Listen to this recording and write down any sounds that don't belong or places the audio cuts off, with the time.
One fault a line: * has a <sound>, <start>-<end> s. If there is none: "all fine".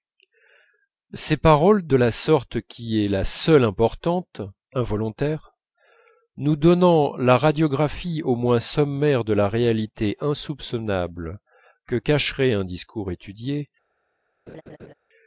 * has a laugh, 14.5-14.9 s